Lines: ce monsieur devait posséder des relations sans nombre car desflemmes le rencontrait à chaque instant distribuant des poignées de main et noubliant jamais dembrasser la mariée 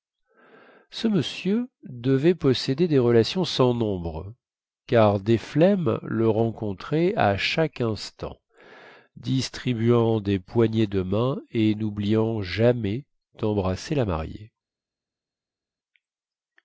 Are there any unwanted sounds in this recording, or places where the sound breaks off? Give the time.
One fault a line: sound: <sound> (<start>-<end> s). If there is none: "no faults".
no faults